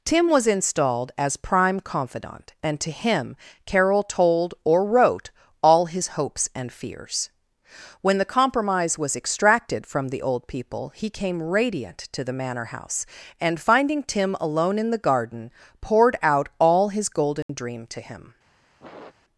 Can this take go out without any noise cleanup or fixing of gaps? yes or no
no